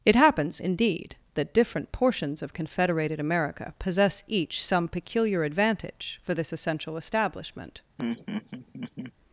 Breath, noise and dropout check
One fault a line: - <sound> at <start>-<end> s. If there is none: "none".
- laugh at 8.0-9.1 s